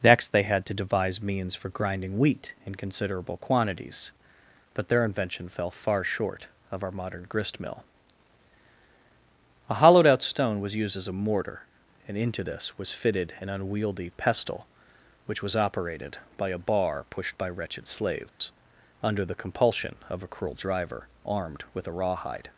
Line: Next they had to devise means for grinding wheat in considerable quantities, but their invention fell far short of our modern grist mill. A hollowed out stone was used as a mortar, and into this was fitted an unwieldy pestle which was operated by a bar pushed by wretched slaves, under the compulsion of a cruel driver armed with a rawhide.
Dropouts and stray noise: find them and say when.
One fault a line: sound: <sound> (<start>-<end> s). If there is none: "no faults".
sound: dropout (18.3-18.4 s)